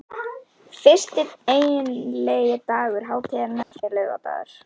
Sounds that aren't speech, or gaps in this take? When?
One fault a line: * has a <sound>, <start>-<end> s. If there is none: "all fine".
* has a dropout, 3.6-3.7 s